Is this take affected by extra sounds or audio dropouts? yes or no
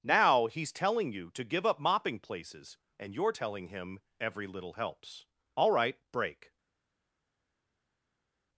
no